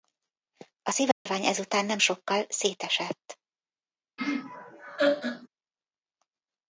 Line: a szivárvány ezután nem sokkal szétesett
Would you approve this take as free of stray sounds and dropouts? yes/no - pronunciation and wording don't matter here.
no